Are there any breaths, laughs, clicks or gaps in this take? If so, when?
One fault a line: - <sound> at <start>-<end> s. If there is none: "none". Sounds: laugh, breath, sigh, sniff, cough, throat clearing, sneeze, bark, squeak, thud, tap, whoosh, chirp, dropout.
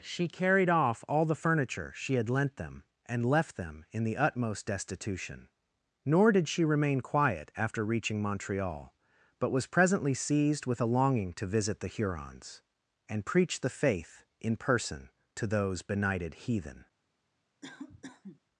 - cough at 17.6-18.4 s